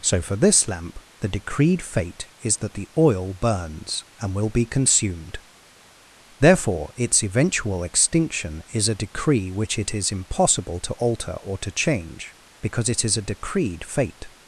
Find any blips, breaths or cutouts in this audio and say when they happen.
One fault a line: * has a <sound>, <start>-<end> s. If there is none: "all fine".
all fine